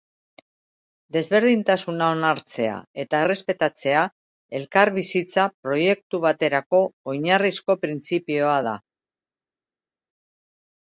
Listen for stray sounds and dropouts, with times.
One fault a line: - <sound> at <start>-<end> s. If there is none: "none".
none